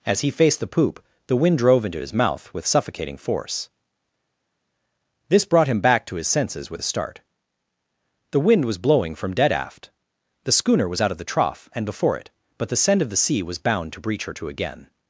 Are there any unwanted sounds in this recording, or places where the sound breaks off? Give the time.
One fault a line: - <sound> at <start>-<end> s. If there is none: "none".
none